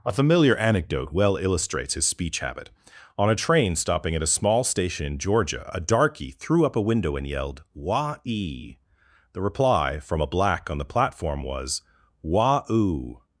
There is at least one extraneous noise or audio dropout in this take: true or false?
false